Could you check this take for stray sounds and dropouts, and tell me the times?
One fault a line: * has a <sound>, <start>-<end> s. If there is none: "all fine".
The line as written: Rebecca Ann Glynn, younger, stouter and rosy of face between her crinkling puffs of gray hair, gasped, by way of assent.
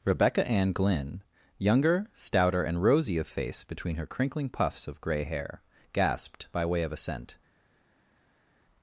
all fine